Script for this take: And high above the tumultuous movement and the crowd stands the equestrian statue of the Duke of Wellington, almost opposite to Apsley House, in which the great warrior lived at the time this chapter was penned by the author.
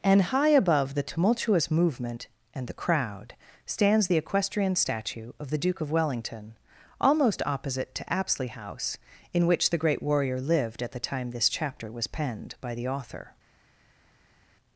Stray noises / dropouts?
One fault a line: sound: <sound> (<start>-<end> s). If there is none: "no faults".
no faults